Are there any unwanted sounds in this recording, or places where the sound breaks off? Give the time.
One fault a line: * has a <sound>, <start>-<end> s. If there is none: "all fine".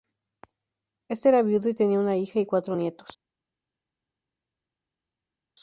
all fine